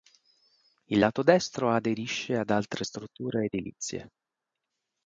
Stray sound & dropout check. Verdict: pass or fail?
pass